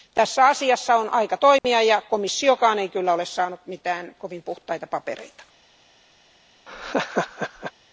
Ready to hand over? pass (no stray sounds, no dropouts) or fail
fail